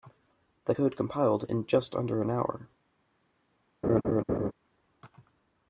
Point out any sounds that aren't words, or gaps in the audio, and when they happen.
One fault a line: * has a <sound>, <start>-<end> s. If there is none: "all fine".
* has a laugh, 3.8-4.5 s